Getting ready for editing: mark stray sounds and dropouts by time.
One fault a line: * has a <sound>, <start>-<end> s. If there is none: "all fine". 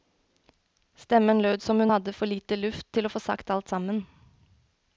all fine